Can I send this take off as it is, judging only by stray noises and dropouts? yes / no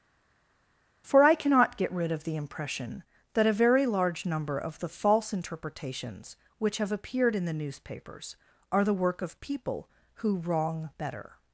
yes